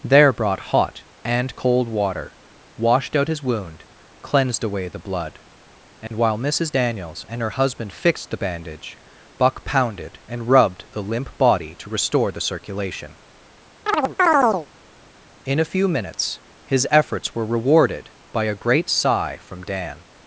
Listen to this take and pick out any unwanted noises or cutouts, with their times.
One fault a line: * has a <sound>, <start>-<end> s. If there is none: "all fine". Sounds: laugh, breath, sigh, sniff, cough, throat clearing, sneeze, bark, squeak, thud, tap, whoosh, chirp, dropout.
* has a dropout, 6.1-6.1 s
* has a chirp, 13.9-14.7 s